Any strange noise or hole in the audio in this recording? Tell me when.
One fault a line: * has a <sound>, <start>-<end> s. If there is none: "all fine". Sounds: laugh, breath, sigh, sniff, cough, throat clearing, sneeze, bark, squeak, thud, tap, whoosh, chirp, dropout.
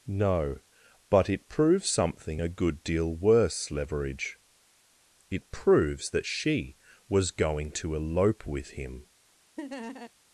* has a laugh, 9.6-10.1 s